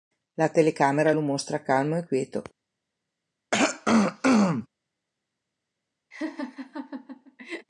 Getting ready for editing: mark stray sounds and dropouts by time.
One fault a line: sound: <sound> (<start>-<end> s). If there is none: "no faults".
sound: throat clearing (3.5-4.7 s)
sound: laugh (6.1-7.7 s)